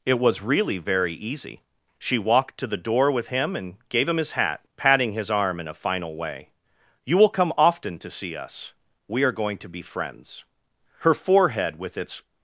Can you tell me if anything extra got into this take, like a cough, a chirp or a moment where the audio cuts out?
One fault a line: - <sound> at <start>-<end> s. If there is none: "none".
none